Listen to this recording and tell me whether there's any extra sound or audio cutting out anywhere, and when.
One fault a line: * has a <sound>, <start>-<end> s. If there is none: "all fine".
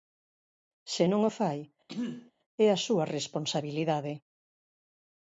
* has a throat clearing, 1.9-2.3 s